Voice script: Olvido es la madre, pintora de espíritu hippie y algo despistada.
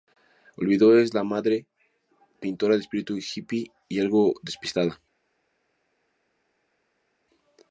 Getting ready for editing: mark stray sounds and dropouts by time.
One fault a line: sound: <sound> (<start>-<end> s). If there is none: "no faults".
no faults